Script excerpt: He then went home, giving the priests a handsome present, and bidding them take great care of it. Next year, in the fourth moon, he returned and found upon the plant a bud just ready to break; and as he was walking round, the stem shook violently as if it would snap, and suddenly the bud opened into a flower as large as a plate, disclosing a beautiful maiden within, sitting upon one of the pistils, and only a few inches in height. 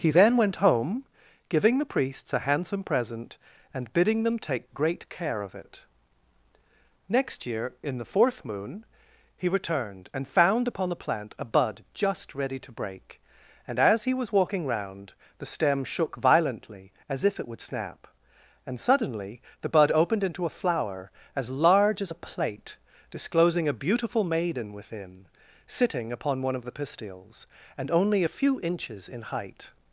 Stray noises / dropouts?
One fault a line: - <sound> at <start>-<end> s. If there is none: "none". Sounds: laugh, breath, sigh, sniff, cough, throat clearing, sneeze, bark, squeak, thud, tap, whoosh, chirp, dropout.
none